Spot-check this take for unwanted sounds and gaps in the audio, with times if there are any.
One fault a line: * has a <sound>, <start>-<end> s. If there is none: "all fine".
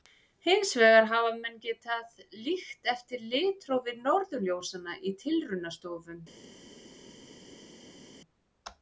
all fine